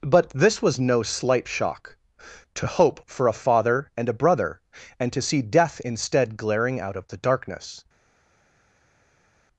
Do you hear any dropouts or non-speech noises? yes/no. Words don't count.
no